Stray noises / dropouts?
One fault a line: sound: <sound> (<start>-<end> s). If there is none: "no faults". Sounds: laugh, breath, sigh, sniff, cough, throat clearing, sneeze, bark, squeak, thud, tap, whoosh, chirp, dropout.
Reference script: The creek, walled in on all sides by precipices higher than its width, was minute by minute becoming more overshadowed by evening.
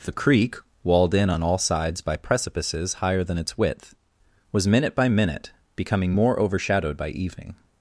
no faults